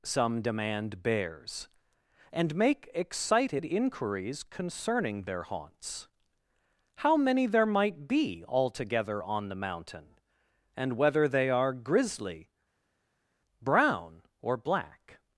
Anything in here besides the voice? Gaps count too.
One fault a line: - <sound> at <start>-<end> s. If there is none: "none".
none